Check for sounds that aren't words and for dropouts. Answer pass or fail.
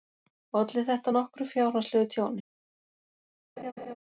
fail